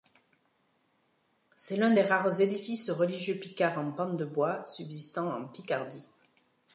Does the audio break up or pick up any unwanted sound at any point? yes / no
no